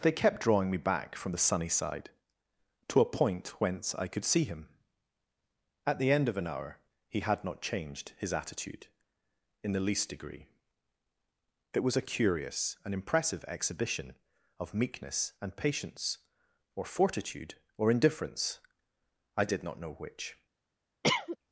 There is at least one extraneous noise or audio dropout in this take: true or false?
true